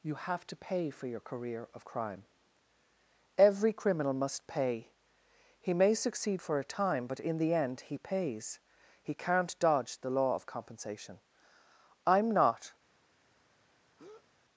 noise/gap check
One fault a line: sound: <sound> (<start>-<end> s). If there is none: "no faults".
sound: breath (14.0-14.3 s)